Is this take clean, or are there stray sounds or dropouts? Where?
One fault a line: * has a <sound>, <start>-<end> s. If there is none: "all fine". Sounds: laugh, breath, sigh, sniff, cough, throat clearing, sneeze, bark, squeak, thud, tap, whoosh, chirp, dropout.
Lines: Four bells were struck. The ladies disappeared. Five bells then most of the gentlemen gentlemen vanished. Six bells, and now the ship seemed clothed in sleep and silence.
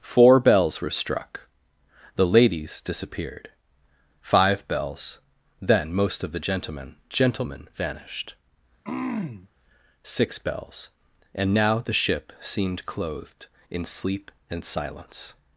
* has a throat clearing, 8.8-9.5 s